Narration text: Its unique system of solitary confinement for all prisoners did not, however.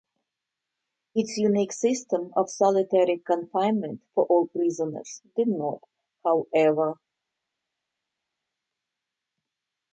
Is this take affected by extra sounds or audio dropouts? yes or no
no